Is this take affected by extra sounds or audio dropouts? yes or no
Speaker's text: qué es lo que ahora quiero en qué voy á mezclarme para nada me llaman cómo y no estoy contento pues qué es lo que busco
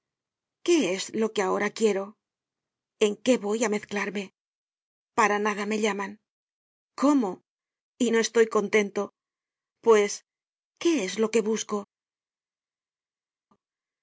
no